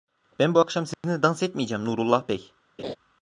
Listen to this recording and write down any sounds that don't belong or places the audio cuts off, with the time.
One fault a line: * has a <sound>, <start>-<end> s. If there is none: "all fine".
* has a dropout, 0.9-1.0 s
* has a laugh, 2.8-3.0 s